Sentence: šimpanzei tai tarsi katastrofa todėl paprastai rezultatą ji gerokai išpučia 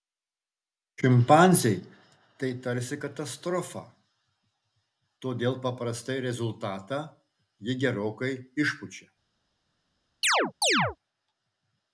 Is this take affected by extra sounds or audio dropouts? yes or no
yes